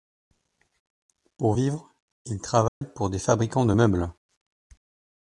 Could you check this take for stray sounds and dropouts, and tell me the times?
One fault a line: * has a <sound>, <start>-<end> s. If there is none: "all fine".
* has a dropout, 2.7-2.8 s